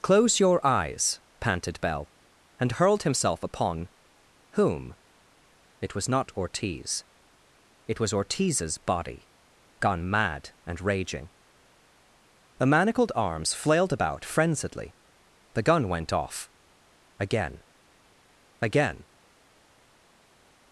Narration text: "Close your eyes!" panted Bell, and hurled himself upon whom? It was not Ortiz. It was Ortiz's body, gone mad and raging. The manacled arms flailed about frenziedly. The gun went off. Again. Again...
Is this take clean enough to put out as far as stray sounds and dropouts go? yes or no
yes